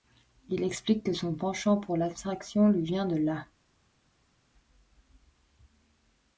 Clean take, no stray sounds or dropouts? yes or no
yes